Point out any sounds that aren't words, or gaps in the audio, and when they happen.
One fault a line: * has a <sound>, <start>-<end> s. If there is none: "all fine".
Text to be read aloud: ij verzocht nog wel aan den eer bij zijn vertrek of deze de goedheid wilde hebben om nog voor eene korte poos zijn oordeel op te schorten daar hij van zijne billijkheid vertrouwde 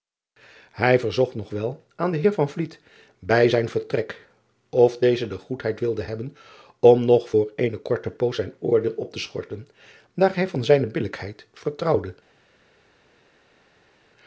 all fine